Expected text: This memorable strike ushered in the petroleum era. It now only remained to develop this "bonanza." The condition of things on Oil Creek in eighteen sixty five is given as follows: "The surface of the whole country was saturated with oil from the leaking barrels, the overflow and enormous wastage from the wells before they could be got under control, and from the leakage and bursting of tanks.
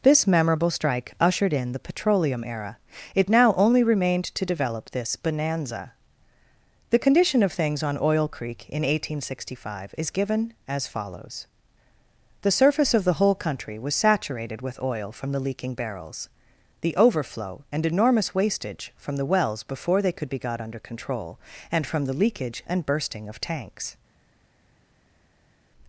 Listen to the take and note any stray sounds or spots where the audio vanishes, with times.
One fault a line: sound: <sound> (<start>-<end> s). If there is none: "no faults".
no faults